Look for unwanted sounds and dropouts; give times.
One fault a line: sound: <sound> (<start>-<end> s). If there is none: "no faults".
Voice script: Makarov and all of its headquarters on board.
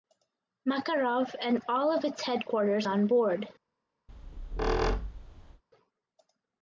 sound: squeak (4.1-5.6 s)